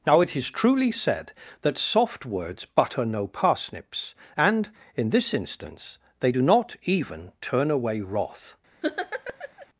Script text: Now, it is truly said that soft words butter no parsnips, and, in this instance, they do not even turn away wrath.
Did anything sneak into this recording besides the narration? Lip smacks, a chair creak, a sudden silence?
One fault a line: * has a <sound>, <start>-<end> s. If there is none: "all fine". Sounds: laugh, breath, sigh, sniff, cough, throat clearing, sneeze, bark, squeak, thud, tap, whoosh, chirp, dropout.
* has a laugh, 8.8-9.7 s